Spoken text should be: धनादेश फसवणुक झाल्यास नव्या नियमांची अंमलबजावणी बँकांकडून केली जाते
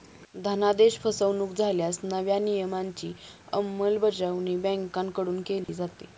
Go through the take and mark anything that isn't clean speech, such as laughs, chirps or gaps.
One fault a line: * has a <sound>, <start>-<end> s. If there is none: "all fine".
* has a dropout, 5.6-5.7 s